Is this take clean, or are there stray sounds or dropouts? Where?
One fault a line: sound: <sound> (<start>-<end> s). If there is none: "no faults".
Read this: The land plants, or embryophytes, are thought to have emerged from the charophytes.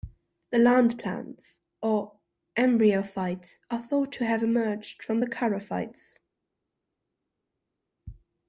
no faults